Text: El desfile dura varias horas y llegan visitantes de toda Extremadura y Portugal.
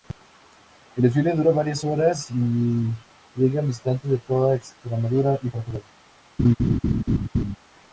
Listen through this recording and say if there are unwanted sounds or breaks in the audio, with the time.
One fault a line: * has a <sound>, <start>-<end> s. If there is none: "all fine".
* has a laugh, 6.4-7.6 s